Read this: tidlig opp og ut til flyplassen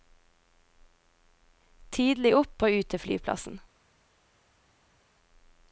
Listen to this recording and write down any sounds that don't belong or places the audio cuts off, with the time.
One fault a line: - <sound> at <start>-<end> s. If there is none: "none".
none